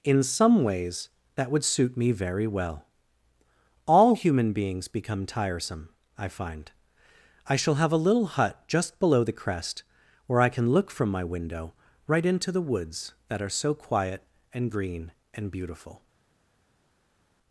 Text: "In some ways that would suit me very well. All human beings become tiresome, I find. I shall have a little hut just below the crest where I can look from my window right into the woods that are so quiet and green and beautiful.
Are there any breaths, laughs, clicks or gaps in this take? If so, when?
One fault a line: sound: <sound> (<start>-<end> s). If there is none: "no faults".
no faults